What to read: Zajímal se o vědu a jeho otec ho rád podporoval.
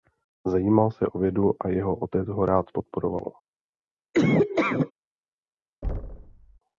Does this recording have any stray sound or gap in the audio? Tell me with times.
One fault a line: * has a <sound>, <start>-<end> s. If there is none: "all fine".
* has a laugh, 4.1-4.9 s
* has a thud, 5.8-6.6 s